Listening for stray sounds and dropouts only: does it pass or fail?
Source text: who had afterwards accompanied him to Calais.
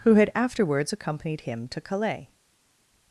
pass